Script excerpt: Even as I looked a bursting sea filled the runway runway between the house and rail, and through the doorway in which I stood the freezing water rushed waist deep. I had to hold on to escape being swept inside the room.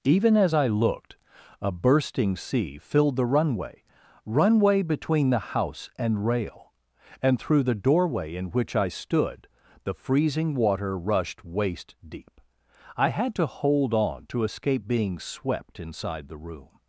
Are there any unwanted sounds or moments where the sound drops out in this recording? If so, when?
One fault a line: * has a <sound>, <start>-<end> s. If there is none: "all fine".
all fine